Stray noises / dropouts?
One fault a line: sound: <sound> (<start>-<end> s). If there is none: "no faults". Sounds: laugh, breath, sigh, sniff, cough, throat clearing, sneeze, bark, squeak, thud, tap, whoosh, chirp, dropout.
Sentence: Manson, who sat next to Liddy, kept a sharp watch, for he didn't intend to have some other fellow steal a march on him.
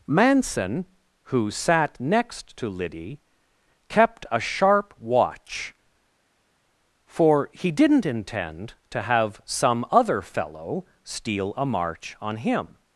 no faults